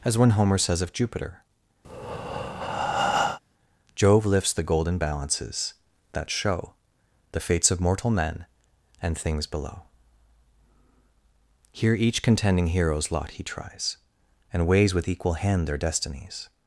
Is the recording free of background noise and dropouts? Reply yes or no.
no